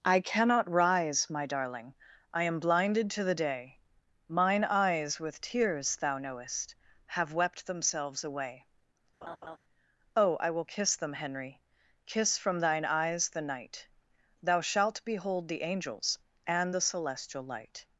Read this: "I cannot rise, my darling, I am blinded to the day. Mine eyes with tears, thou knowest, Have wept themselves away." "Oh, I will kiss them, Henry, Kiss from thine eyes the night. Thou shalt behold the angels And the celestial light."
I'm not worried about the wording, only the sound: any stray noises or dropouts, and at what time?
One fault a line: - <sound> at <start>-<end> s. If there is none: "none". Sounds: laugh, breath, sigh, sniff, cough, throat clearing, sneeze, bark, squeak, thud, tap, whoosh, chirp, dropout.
- laugh at 9.2-9.6 s